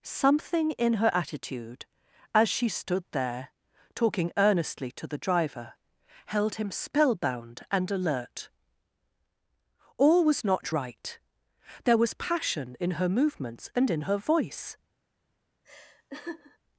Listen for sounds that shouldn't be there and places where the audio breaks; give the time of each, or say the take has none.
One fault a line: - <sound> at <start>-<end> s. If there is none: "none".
- laugh at 15.6-16.6 s